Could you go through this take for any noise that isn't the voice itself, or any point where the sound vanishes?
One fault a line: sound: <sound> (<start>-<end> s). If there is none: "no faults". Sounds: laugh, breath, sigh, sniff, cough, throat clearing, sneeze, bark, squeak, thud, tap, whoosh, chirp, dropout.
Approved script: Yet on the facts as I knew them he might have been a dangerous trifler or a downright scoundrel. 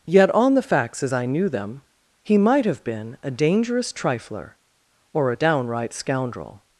no faults